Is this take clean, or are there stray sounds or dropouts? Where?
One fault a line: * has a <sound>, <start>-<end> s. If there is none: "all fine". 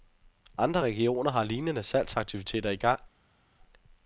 all fine